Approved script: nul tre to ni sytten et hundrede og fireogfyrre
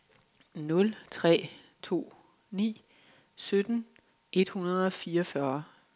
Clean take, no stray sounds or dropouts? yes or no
yes